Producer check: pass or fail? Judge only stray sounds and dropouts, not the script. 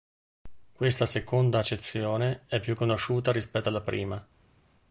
pass